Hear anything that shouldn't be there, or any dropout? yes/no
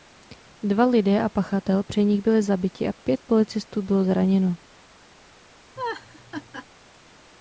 yes